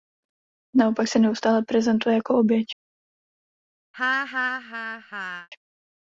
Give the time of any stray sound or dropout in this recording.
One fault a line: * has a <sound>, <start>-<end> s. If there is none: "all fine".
* has a laugh, 3.9-5.5 s